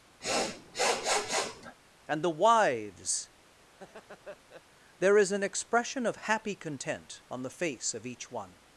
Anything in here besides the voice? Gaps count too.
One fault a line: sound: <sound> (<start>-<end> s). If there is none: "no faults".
sound: sniff (0.2-1.8 s)
sound: laugh (3.7-4.6 s)